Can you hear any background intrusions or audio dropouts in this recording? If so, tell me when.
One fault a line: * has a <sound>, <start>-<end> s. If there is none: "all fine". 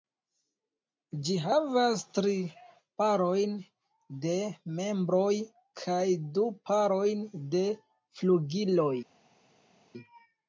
all fine